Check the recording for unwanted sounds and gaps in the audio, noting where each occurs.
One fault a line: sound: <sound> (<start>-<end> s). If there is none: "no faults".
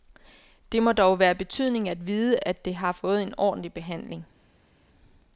no faults